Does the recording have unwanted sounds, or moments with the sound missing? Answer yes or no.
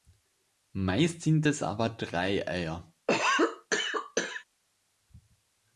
yes